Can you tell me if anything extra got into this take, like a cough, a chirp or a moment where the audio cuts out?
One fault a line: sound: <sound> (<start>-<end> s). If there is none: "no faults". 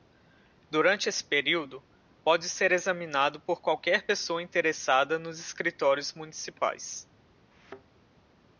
sound: thud (7.5-7.8 s)